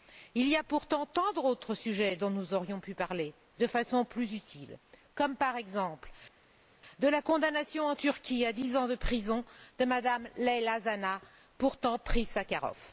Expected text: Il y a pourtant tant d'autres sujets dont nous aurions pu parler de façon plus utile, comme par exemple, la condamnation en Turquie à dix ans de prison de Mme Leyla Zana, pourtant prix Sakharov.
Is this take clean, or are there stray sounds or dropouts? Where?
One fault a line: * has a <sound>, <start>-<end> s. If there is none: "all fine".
all fine